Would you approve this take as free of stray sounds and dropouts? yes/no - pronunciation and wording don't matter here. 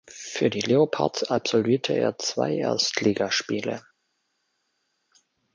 yes